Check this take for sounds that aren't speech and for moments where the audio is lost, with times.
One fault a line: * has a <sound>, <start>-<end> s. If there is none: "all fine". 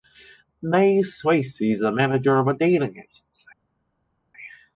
all fine